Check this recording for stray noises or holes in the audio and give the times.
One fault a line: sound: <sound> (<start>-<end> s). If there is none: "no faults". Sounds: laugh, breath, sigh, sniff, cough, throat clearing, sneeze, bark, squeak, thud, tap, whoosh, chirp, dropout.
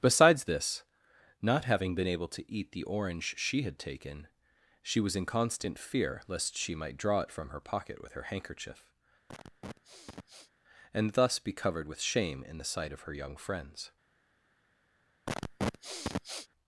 sound: sniff (9.3-10.5 s)
sound: sniff (15.3-16.5 s)